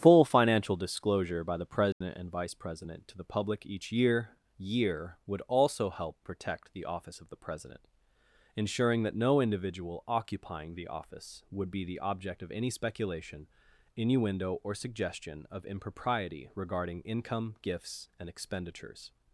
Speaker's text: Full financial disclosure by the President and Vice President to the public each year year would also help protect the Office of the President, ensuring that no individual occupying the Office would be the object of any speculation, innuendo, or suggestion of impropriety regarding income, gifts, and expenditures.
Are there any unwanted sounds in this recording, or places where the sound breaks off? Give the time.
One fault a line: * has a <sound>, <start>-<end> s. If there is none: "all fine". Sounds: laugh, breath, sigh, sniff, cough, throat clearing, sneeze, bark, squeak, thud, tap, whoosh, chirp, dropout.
* has a dropout, 1.9-2.0 s